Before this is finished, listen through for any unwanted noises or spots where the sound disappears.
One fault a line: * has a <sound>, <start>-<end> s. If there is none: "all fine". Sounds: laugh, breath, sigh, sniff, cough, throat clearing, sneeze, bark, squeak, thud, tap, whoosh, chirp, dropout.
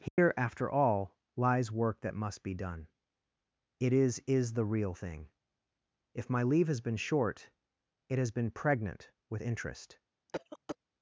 * has a dropout, 0.1-0.2 s
* has a cough, 10.3-10.8 s